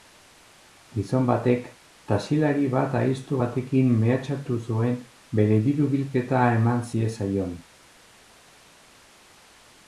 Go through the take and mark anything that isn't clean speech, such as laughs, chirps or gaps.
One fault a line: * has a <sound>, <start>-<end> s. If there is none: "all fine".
all fine